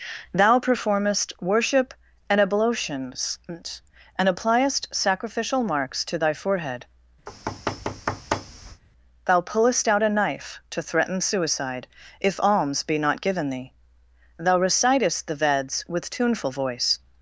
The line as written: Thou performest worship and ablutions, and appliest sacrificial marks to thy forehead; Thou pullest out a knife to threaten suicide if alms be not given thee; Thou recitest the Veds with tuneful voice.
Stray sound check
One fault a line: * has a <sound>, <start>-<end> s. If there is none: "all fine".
* has a thud, 7.3-8.8 s